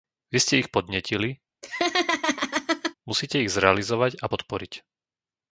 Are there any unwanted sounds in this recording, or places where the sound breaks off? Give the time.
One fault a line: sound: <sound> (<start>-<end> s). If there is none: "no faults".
sound: laugh (1.6-2.9 s)